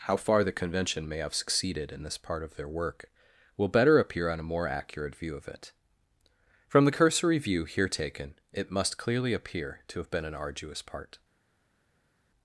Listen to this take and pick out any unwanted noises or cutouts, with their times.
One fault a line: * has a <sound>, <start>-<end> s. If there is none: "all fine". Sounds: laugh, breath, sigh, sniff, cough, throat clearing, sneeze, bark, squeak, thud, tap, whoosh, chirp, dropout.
all fine